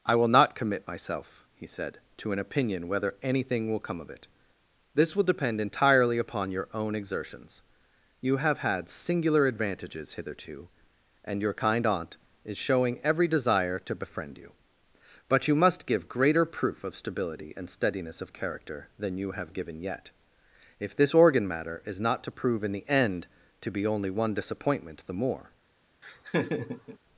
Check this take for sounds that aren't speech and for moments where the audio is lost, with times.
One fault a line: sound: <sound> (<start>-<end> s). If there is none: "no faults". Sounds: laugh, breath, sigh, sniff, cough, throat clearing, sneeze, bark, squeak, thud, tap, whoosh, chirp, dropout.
sound: laugh (26.0-27.0 s)